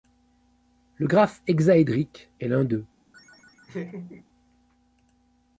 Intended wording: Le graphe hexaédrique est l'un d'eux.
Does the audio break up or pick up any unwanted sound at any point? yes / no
yes